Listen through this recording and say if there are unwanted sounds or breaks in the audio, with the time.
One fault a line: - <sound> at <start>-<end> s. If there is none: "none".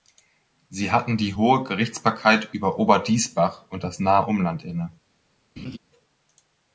- laugh at 5.6-5.8 s